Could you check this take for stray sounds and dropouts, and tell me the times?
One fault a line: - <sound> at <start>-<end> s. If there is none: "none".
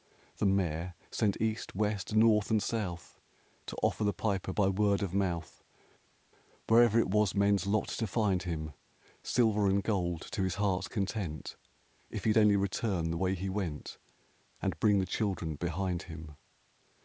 none